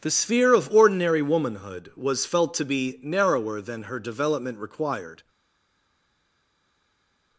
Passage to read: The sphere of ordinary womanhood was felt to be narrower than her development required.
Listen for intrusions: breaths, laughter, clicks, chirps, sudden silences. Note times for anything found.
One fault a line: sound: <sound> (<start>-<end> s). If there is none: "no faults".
no faults